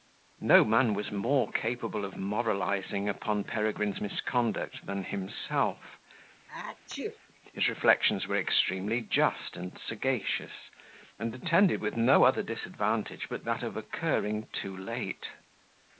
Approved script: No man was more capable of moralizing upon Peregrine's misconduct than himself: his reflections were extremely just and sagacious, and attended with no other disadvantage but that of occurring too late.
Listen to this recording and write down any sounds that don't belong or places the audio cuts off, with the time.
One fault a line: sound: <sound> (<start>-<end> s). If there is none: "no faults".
sound: sneeze (6.5-7.2 s)